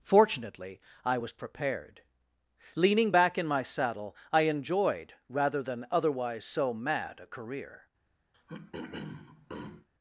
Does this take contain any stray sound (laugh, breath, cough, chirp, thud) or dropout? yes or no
yes